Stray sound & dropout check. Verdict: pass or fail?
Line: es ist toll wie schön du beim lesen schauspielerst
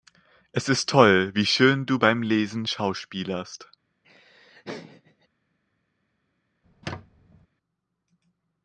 fail